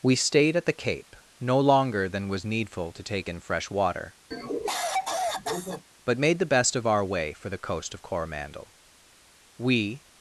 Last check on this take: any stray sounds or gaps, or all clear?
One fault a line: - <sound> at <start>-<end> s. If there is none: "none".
- cough at 4.3-5.8 s